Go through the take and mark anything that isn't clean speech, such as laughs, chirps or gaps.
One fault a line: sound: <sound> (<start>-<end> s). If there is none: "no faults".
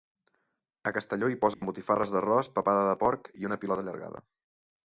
sound: dropout (1.5-1.6 s)